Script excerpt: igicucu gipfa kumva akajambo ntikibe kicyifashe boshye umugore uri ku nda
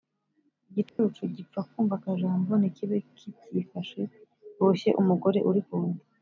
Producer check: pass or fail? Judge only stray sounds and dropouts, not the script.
fail